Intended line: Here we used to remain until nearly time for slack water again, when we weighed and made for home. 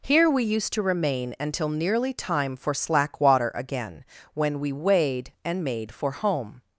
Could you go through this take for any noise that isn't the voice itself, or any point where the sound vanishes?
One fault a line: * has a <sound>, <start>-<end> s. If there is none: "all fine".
all fine